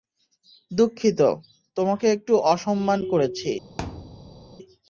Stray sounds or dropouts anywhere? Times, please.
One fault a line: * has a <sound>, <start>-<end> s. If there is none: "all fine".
* has a thud, 3.8-4.6 s